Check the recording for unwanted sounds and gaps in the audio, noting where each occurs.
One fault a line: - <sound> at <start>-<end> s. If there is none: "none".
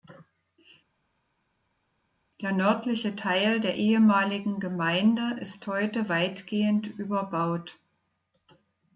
none